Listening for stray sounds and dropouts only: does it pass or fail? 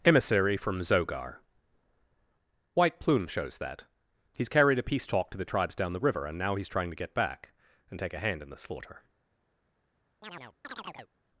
fail